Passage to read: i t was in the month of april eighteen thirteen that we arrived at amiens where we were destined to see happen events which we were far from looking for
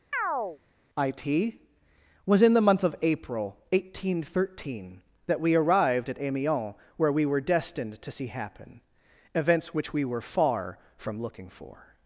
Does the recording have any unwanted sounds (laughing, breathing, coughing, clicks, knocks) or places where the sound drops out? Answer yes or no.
yes